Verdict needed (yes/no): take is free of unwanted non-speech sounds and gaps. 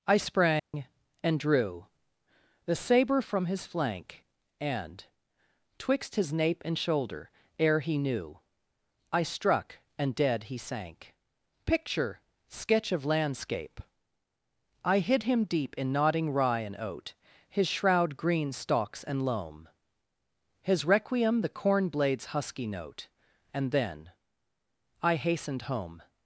no